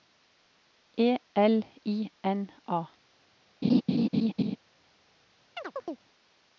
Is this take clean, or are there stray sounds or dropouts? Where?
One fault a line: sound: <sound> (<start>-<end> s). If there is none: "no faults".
sound: laugh (3.6-4.6 s)
sound: chirp (5.6-6.0 s)